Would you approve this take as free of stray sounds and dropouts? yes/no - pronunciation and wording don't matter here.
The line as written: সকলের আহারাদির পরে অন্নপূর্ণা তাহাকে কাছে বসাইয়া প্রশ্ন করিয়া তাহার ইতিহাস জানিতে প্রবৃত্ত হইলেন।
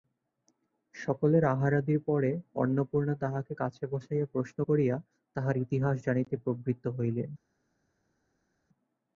yes